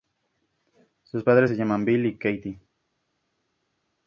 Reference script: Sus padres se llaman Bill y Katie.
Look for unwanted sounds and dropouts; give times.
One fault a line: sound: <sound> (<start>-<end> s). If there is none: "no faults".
no faults